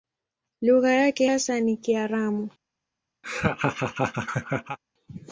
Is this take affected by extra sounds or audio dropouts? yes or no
yes